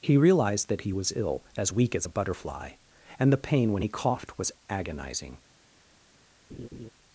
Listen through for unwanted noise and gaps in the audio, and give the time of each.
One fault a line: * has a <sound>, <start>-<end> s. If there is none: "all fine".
* has a laugh, 6.5-6.9 s